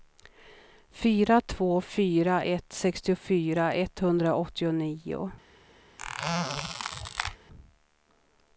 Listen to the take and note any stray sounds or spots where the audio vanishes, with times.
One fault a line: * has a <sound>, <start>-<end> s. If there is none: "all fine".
* has a squeak, 6.0-7.4 s